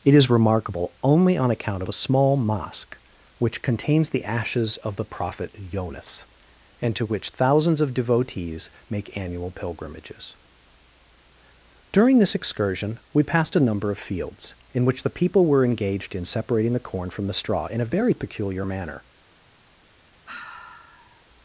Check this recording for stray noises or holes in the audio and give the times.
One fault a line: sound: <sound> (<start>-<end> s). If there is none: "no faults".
sound: sigh (20.3-21.2 s)